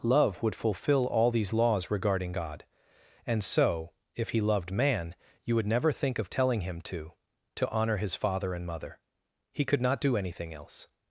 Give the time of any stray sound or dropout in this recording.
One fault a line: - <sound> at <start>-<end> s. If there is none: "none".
none